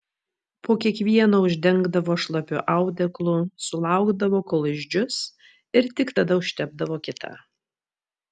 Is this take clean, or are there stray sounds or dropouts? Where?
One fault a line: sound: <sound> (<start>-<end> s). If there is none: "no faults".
no faults